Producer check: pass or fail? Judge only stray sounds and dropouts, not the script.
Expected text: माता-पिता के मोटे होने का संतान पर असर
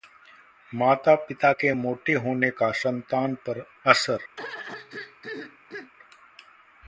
fail